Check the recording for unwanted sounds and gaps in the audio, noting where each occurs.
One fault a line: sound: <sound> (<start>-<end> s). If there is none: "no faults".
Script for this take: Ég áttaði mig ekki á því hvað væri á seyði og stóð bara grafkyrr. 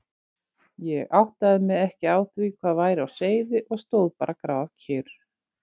no faults